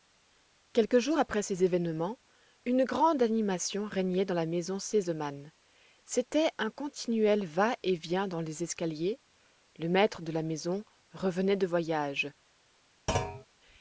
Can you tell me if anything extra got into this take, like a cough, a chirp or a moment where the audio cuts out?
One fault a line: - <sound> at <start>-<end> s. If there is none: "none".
- thud at 13.1-13.5 s